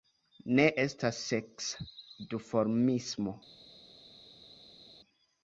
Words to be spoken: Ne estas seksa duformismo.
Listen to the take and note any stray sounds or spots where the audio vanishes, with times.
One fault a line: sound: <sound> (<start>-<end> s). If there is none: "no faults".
no faults